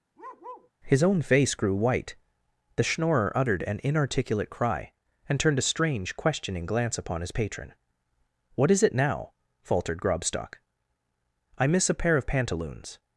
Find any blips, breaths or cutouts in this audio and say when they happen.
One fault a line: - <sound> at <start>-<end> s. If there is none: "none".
- bark at 0.2-0.7 s